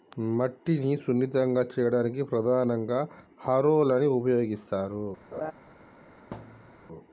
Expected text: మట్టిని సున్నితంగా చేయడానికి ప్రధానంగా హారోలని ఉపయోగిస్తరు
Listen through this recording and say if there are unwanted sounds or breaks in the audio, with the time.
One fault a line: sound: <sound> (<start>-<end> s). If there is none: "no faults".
sound: laugh (5.3-5.5 s)
sound: thud (6.3-6.9 s)